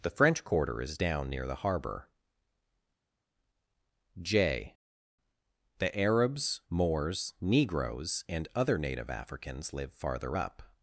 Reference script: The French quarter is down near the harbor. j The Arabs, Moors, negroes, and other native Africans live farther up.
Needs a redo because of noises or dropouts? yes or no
no